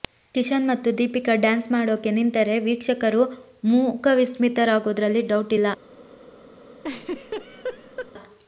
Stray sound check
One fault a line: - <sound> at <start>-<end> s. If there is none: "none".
- laugh at 6.8-8.1 s